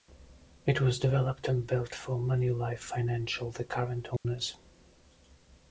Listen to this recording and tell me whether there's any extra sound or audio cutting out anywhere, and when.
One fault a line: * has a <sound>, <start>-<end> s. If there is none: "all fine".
* has a dropout, 4.2-4.2 s